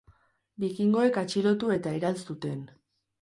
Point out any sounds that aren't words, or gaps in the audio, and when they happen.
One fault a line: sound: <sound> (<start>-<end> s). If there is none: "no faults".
no faults